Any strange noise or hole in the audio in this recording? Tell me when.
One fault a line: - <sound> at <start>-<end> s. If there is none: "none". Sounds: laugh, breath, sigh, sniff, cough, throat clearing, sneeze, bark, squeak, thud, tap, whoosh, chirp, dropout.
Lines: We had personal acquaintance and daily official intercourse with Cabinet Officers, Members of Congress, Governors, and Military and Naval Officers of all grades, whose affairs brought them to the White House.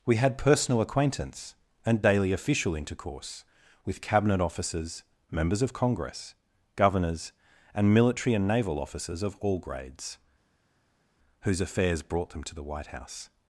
none